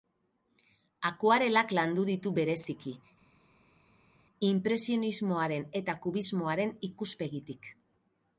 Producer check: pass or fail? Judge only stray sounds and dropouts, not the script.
pass